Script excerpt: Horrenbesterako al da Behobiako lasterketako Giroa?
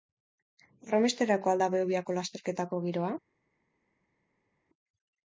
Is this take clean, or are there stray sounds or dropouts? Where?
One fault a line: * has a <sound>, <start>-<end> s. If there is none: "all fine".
all fine